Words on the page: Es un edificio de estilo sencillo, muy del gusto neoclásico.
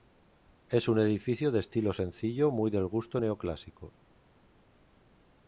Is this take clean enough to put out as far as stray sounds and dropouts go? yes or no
yes